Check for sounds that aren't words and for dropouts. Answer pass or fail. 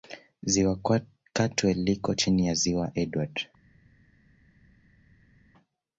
pass